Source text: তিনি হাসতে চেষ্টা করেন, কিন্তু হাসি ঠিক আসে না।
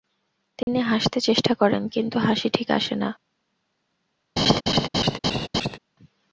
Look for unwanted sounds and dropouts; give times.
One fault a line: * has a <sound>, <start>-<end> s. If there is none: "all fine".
* has a dropout, 0.6-0.7 s
* has a laugh, 4.4-5.8 s